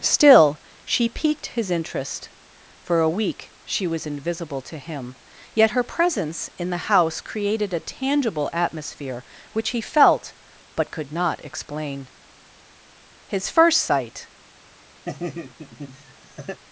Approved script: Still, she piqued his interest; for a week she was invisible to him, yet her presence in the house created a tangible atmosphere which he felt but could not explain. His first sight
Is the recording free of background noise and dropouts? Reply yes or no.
no